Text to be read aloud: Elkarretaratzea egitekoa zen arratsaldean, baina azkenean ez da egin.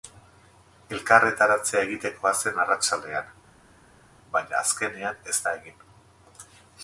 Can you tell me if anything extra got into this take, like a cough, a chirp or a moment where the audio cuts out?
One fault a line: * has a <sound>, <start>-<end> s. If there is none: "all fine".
all fine